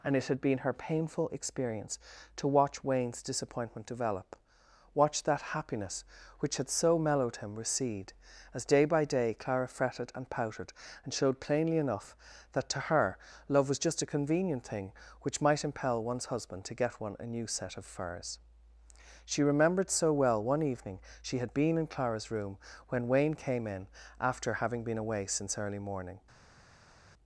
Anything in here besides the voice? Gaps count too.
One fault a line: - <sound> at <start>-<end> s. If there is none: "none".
none